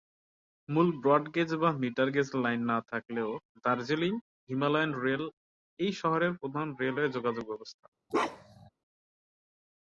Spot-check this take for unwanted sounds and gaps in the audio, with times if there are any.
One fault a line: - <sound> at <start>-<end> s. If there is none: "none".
- bark at 8.1-8.7 s